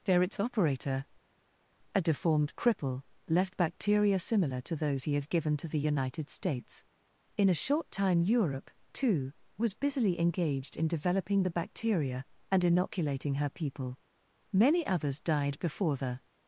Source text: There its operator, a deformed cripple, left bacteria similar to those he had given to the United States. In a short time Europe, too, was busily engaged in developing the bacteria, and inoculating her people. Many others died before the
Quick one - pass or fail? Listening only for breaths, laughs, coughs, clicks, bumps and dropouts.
pass